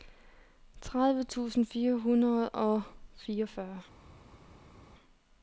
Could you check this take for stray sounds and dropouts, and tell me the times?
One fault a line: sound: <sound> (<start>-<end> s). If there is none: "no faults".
no faults